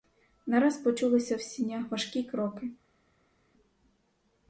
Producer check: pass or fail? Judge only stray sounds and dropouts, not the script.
pass